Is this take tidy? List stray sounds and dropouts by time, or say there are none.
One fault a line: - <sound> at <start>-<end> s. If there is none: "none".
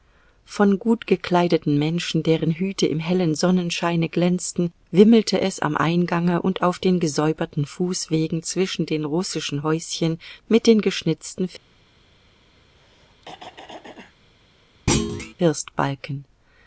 - throat clearing at 12.7-14.1 s
- thud at 14.9-15.3 s